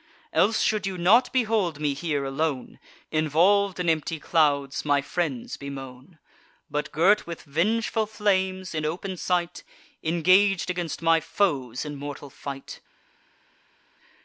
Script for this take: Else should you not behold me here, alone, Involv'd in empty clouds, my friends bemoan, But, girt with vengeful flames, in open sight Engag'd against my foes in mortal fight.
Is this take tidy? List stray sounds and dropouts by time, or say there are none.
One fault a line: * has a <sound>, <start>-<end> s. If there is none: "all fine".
all fine